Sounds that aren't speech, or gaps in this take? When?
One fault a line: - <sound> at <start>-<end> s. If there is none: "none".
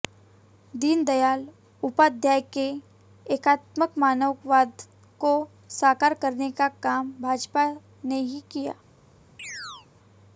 - chirp at 9.4-9.9 s